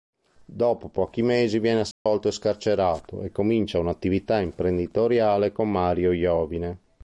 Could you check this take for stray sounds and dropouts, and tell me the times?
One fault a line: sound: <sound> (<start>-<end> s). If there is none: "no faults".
sound: dropout (1.9-2.1 s)